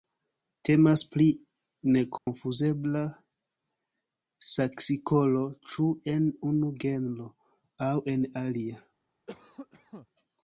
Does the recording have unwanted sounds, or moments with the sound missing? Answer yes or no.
yes